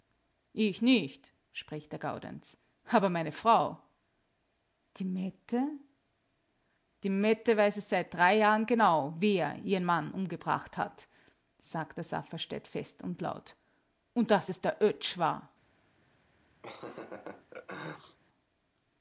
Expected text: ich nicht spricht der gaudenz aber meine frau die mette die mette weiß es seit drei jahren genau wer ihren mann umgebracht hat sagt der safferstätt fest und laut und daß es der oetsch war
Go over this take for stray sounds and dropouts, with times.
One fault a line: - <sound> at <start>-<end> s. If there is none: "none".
- laugh at 16.6-18.2 s